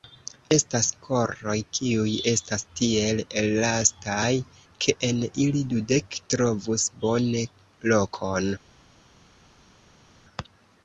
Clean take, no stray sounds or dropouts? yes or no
yes